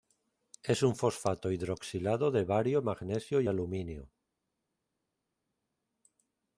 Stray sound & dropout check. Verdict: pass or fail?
pass